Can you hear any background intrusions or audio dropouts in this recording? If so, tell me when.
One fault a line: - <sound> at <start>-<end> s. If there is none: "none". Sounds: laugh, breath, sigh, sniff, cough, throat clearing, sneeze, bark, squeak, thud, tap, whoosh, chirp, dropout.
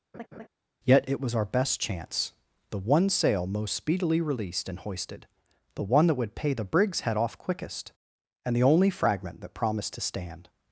- laugh at 0.1-0.5 s